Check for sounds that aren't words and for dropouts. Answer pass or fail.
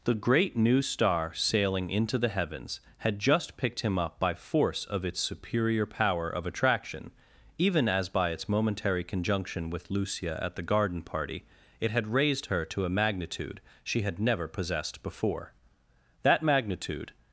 pass